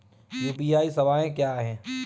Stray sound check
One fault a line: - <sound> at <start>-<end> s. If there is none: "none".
none